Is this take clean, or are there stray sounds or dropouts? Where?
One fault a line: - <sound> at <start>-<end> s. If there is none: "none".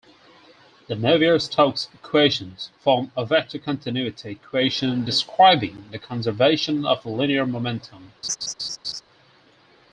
- laugh at 8.2-9.0 s